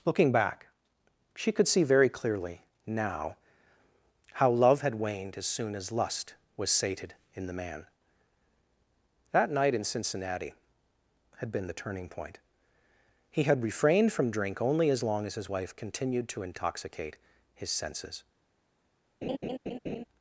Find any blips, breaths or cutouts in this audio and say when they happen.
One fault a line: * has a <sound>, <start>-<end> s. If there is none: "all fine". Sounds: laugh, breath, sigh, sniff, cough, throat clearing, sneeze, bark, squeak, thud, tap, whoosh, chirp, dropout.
* has a laugh, 19.2-20.0 s